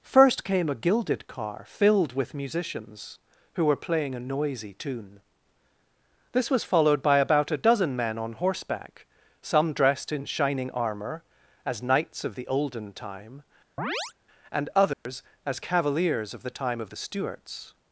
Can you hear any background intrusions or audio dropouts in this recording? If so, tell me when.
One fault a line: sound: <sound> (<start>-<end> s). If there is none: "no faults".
sound: chirp (13.8-14.1 s)
sound: dropout (14.9-15.1 s)